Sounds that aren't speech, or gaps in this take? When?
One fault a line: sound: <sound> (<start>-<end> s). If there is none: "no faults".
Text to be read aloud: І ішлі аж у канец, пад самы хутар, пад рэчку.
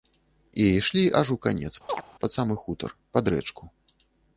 sound: chirp (1.9-2.0 s)